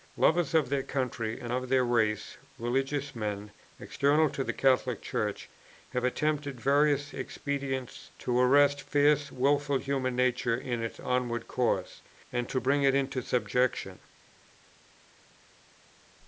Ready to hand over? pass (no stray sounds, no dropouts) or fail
pass